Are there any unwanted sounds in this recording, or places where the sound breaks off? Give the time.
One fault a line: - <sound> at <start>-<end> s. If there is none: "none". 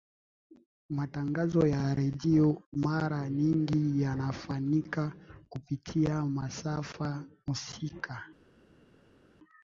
none